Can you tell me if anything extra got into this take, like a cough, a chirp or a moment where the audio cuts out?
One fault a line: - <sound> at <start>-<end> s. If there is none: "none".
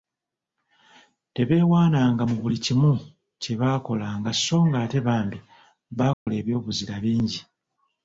- dropout at 6.1-6.3 s